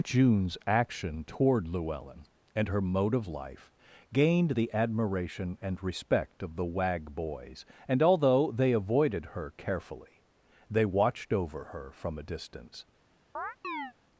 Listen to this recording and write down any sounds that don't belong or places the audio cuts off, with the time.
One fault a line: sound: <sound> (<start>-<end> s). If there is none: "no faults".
sound: chirp (13.3-13.9 s)